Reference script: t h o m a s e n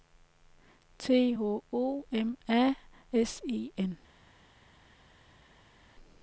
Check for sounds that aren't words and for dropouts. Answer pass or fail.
pass